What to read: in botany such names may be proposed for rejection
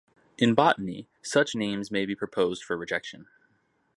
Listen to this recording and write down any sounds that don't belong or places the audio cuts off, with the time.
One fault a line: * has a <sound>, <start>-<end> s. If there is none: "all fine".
all fine